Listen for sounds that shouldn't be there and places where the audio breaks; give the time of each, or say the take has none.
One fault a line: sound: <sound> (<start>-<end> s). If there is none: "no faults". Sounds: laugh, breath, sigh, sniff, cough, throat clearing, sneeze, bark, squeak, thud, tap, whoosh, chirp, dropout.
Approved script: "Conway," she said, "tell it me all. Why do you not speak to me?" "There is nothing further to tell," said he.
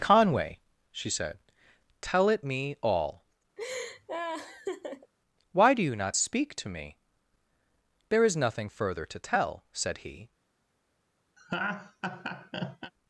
sound: laugh (3.6-5.1 s)
sound: laugh (11.4-12.9 s)